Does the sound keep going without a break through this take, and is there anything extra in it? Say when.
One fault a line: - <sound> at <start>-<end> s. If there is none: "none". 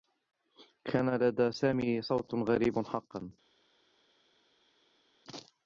none